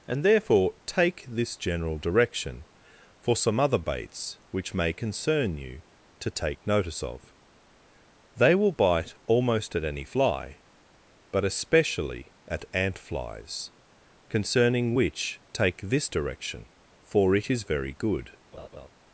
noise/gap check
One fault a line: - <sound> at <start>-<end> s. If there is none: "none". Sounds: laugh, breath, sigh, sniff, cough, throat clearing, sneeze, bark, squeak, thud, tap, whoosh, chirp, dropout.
- laugh at 18.5-18.9 s